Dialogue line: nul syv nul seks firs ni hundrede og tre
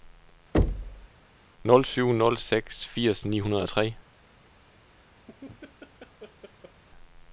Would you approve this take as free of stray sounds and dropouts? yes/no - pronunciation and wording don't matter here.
no